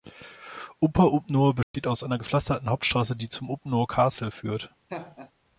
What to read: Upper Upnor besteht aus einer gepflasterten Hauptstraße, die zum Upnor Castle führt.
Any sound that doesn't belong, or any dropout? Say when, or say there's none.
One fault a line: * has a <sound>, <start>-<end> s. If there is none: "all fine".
* has a dropout, 1.6-1.7 s
* has a laugh, 4.9-5.3 s